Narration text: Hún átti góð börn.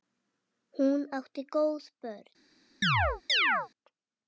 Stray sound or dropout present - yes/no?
yes